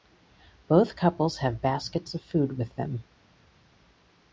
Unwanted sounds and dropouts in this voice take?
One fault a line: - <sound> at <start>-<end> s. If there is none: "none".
none